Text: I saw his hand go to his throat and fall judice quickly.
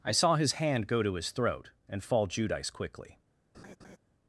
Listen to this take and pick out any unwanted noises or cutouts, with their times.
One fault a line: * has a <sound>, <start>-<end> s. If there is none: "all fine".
* has a laugh, 3.5-4.0 s